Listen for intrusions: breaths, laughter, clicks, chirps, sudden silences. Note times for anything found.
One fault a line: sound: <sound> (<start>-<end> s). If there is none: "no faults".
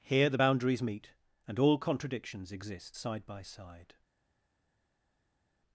no faults